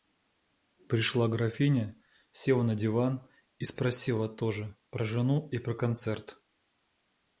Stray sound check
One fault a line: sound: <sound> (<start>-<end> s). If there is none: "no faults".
no faults